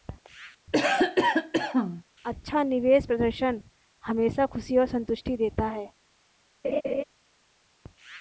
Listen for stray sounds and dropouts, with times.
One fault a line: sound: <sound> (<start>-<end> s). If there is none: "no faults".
sound: cough (0.7-2.0 s)
sound: laugh (6.6-7.0 s)